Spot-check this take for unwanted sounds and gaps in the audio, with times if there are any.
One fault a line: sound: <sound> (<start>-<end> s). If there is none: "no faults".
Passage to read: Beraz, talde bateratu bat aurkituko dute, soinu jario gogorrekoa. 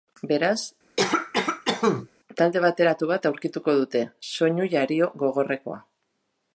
sound: cough (1.0-2.1 s)